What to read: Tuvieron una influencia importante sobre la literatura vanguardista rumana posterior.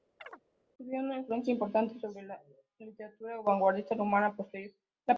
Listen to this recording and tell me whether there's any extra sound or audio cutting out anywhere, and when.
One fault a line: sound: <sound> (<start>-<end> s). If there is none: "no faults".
sound: chirp (0.2-0.4 s)